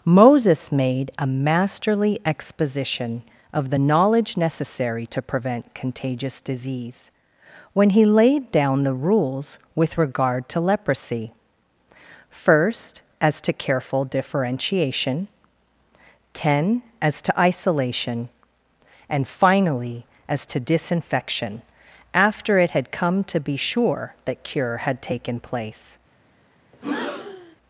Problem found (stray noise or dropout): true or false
true